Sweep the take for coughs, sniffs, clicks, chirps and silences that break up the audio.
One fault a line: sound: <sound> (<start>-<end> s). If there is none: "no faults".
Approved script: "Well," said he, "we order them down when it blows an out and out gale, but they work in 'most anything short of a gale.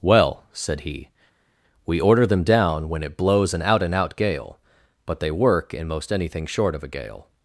no faults